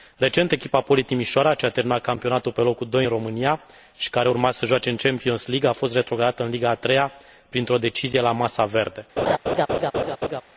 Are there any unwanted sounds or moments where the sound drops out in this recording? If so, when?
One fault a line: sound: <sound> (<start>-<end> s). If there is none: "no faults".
sound: laugh (9.2-10.4 s)